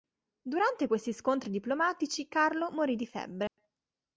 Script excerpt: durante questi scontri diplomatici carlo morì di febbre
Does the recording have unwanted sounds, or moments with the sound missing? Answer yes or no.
yes